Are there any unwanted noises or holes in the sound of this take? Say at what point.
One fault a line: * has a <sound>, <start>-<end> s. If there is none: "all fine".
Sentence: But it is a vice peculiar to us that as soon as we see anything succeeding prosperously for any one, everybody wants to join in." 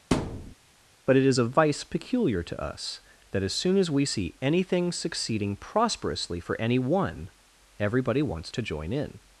* has a thud, 0.1-0.5 s